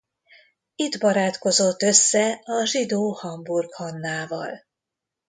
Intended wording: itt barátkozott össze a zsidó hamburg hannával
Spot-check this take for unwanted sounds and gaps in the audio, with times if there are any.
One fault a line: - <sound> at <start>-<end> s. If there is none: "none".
none